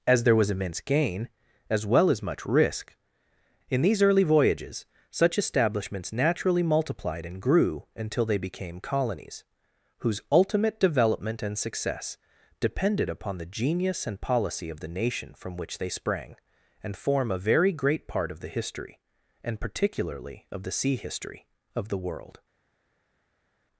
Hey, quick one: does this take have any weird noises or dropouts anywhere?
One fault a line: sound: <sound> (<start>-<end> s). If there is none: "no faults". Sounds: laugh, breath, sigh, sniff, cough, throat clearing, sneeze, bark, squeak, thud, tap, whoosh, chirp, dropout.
no faults